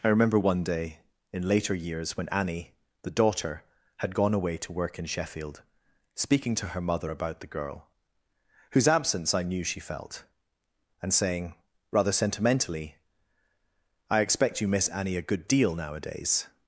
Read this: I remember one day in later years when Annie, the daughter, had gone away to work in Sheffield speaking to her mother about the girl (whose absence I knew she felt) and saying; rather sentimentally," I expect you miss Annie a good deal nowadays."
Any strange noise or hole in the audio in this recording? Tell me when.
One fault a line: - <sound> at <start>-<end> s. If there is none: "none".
none